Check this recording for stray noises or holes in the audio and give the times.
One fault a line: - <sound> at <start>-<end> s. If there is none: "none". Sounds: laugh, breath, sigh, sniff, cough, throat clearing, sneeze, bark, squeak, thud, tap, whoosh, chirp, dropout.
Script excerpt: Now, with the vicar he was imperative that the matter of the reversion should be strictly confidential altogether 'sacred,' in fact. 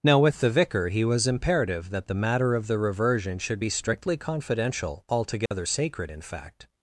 - dropout at 5.5-5.5 s